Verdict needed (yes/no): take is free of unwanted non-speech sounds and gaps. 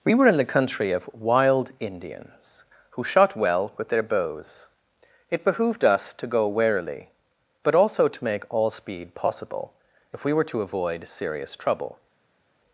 yes